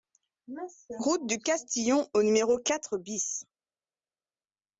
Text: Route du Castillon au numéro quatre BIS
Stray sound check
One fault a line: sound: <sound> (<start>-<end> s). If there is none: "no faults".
no faults